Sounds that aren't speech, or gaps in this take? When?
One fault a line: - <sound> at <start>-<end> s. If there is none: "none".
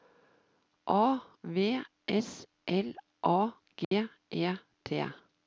- dropout at 3.8-3.9 s